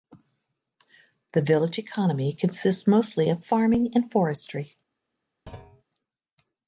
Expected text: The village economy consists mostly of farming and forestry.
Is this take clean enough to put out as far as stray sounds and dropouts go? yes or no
no